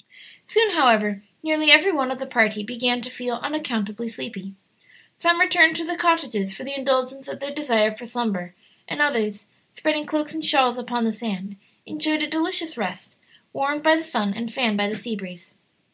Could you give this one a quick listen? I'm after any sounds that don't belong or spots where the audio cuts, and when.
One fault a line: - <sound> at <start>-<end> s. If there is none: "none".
none